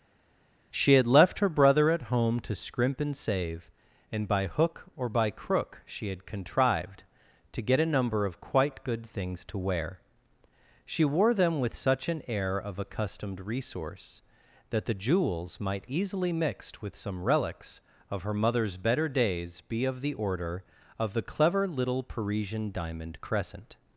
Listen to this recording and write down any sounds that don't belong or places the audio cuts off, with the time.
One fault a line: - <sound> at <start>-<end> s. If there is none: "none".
none